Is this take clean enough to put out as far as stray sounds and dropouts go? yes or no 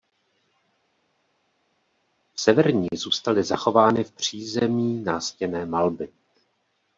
yes